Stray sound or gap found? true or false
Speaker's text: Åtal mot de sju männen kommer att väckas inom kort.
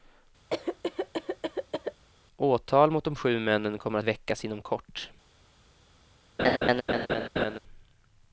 true